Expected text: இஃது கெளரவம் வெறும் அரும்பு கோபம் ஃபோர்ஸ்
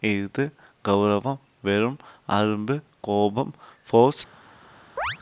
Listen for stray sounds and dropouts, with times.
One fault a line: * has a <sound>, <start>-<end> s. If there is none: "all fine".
* has a chirp, 5.0-5.2 s